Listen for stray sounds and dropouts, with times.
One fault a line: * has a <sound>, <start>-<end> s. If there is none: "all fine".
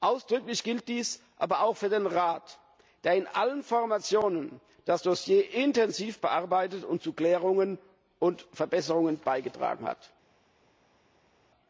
all fine